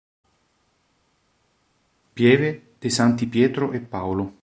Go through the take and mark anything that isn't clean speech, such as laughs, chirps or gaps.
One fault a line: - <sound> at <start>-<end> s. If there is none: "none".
none